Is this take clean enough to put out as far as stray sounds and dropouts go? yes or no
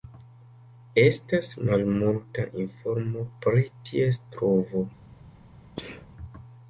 no